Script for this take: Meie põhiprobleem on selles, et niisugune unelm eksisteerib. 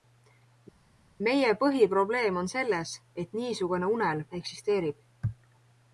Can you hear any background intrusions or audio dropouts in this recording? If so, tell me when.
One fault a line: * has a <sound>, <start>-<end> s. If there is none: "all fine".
all fine